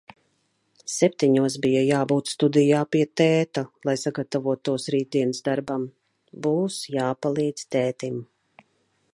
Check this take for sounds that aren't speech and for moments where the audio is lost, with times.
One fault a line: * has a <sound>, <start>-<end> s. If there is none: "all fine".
all fine